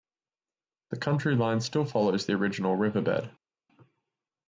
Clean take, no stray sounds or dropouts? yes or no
yes